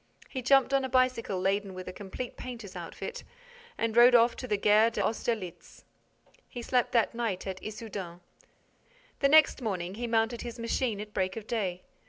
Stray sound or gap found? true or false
false